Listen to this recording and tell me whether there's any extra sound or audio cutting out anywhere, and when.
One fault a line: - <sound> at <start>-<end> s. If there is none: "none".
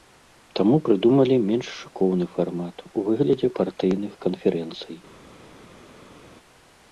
none